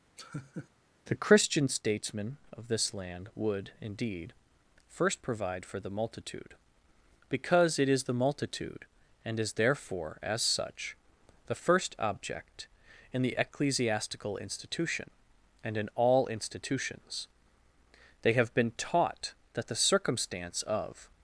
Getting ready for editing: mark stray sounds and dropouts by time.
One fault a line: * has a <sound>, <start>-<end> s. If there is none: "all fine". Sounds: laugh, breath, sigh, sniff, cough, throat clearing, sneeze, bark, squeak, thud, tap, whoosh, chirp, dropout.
* has a laugh, 0.2-0.7 s